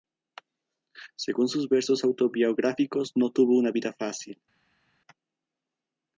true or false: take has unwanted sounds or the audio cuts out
false